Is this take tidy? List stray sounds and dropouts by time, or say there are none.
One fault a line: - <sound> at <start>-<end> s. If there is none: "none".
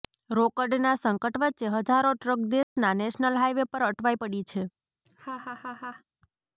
- dropout at 2.6-2.8 s
- laugh at 5.1-6.0 s